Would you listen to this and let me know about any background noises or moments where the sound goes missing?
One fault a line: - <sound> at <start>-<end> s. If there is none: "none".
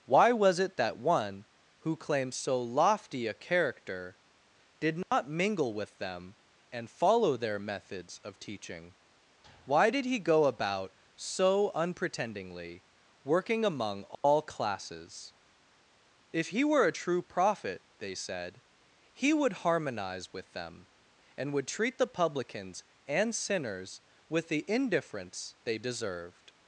- dropout at 5.0-5.1 s
- dropout at 14.1-14.2 s